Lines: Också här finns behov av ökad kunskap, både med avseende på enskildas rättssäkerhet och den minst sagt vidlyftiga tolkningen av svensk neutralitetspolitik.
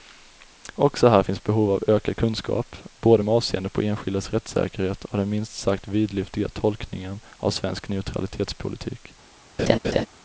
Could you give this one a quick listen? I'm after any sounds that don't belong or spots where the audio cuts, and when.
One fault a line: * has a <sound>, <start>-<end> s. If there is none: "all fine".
* has a laugh, 9.6-10.1 s